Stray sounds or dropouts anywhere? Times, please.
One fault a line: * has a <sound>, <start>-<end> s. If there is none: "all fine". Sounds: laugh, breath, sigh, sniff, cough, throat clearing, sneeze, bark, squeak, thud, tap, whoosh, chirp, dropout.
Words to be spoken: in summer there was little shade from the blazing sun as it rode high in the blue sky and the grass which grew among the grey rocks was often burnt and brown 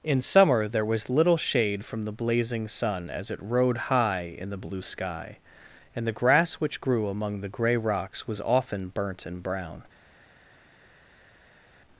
all fine